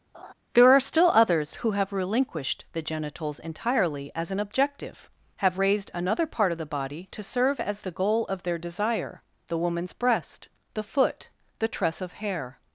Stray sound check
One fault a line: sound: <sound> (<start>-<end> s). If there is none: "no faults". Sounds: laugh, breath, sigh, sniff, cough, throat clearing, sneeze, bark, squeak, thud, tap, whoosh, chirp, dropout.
sound: laugh (0.1-0.3 s)